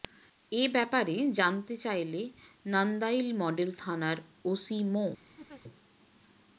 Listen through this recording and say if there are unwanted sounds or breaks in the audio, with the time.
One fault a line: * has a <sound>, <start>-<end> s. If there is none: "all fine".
* has a laugh, 5.4-5.6 s